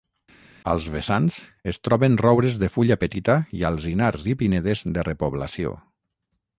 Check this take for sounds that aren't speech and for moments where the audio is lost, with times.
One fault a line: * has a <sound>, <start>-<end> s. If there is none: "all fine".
all fine